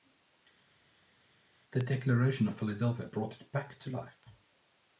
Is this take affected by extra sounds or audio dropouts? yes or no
no